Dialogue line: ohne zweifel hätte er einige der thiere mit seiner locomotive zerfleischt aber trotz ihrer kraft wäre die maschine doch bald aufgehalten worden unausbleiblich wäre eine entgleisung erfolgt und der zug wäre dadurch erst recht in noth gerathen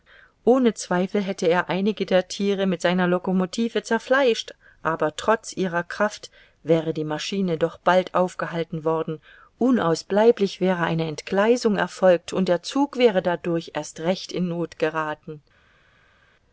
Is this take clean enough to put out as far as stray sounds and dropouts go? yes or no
yes